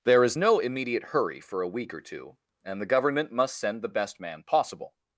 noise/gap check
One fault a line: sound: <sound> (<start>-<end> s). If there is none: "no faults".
no faults